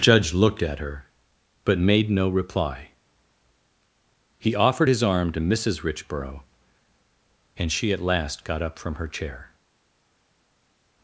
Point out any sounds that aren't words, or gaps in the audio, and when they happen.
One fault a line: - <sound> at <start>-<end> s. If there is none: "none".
none